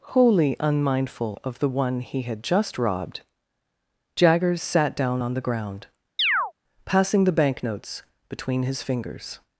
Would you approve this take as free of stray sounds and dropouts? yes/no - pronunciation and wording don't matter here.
no